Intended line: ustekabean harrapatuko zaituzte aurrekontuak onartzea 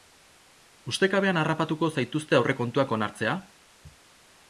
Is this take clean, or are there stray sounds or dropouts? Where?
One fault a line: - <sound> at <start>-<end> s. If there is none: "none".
none